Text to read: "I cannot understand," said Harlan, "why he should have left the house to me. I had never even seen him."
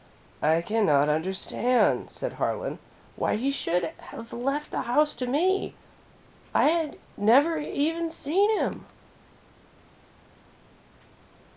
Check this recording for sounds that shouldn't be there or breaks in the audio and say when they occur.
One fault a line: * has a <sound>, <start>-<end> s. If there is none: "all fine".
all fine